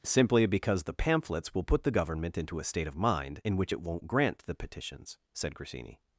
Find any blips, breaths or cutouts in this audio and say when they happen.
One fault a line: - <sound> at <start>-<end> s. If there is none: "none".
none